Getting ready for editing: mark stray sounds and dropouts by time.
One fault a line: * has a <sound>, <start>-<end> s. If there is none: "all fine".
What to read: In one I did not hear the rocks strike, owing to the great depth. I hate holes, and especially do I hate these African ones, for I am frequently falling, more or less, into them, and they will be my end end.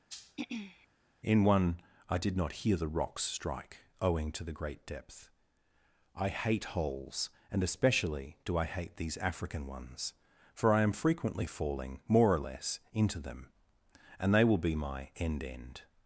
* has a throat clearing, 0.1-0.9 s